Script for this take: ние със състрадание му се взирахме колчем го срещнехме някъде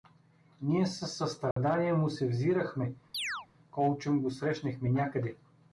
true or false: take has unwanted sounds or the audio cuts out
true